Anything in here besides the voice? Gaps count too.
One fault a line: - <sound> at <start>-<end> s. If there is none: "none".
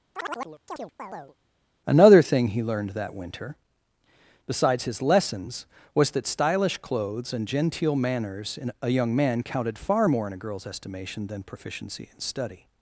- chirp at 0.2-1.4 s